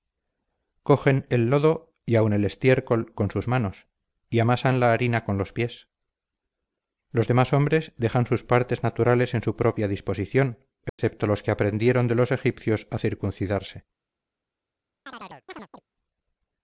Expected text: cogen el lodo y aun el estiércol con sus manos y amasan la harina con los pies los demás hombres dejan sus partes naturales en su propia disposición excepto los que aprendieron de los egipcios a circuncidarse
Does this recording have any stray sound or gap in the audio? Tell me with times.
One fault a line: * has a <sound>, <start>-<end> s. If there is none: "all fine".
* has a dropout, 10.9-11.0 s
* has a chirp, 15.1-15.8 s